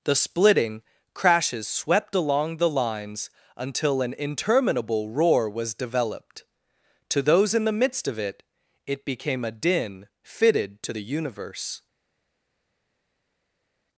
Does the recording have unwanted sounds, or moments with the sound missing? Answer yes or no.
no